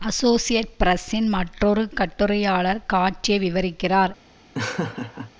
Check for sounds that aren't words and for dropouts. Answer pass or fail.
fail